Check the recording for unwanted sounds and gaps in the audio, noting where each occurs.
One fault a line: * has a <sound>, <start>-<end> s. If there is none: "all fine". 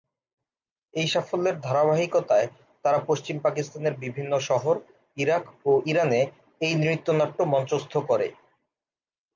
all fine